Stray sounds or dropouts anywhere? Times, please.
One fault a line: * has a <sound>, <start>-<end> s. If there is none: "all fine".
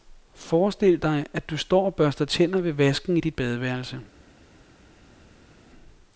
all fine